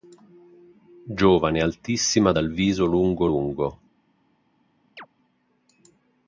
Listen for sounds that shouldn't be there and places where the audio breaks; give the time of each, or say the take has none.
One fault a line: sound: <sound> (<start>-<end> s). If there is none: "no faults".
sound: chirp (5.0-5.1 s)